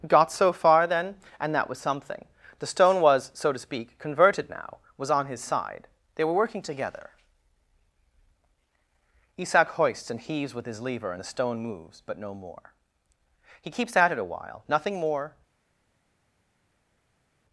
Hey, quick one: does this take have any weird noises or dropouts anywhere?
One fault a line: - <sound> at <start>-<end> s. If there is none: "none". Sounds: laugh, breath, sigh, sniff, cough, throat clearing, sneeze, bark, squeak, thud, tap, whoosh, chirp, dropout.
none